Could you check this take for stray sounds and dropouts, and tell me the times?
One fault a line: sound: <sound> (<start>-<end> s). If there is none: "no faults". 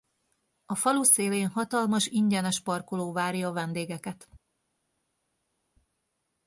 no faults